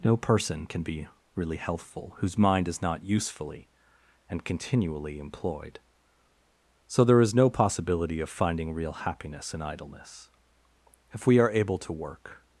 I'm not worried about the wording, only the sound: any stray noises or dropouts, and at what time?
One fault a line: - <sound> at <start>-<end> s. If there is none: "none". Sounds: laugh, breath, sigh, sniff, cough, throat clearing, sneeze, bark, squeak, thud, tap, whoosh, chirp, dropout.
none